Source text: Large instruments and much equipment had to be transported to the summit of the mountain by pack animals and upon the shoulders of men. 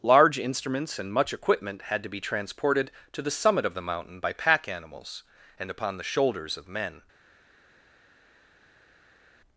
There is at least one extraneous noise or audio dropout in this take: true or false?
false